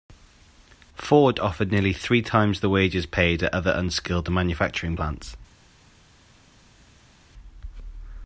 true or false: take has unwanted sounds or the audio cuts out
false